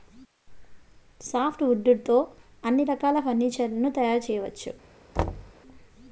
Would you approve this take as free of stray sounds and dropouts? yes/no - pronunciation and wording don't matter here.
no